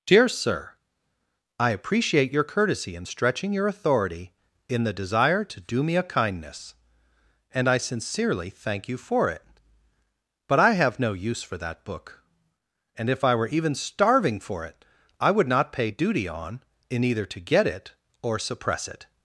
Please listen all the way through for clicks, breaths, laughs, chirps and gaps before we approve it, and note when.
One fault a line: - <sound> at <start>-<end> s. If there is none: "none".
none